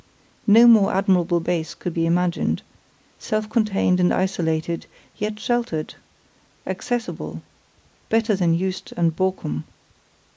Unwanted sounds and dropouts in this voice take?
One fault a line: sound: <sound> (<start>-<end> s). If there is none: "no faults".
no faults